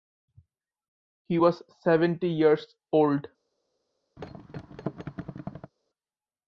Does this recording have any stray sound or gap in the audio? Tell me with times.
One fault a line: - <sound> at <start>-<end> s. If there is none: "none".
- thud at 4.2-5.7 s